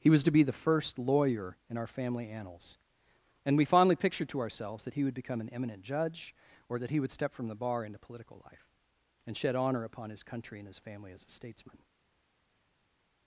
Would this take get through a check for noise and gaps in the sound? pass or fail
pass